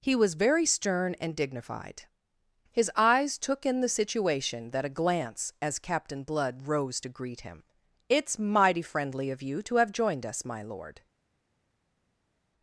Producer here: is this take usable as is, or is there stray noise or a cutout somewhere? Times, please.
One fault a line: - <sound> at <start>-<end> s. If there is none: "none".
none